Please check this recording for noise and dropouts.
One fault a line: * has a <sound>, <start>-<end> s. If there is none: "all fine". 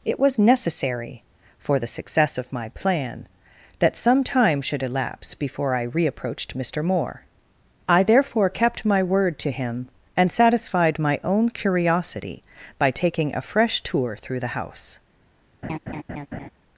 * has a laugh, 15.6-16.5 s